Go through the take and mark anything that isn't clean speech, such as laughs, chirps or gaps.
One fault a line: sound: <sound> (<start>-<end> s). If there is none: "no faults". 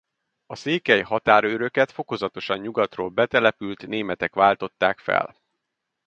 no faults